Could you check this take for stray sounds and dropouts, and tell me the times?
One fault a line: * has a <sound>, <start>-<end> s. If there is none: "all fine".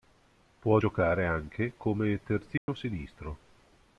* has a dropout, 2.6-2.7 s